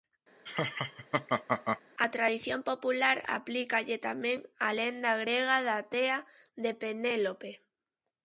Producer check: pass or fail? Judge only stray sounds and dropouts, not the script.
fail